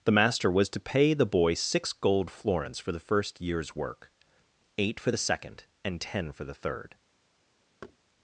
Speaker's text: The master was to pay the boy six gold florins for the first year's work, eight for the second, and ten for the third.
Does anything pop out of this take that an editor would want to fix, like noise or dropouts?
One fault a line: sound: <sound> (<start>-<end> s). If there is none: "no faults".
sound: thud (7.8-8.0 s)